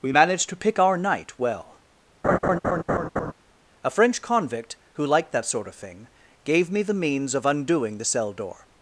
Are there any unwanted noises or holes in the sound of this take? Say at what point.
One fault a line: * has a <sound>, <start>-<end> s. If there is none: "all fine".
* has a laugh, 2.2-3.3 s